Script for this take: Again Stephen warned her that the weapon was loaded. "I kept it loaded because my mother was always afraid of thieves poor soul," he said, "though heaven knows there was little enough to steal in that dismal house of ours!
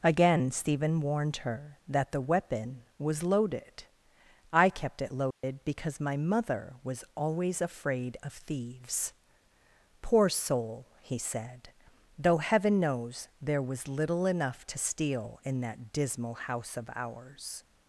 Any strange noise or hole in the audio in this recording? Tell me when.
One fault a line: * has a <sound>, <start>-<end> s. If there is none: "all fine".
* has a dropout, 5.3-5.4 s